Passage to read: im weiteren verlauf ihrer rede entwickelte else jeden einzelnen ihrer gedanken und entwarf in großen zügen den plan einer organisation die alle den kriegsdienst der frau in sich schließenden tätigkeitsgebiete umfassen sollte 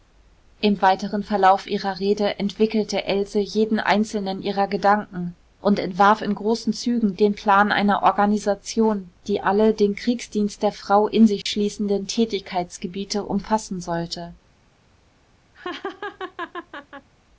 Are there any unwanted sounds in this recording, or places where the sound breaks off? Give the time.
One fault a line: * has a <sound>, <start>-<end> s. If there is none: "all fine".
* has a dropout, 11.4-11.5 s
* has a laugh, 15.5-17.1 s